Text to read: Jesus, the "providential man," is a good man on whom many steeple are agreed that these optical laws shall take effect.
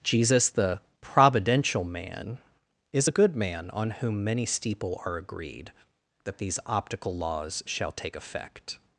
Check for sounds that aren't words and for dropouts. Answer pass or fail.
pass